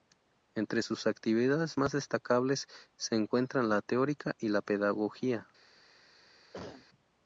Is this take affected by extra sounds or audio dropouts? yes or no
yes